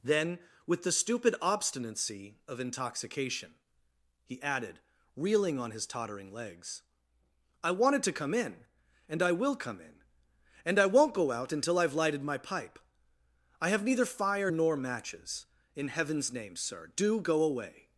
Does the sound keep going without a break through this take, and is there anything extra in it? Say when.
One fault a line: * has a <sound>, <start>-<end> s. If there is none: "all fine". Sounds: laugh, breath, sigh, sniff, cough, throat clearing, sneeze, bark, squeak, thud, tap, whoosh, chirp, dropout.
all fine